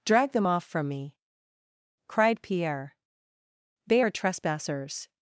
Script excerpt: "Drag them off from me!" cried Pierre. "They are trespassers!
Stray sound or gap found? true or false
false